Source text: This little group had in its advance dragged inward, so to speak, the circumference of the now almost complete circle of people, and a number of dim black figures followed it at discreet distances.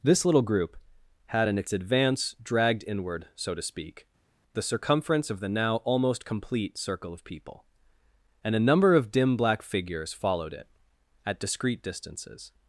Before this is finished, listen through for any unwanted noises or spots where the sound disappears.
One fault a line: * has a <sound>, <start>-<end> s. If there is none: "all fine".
all fine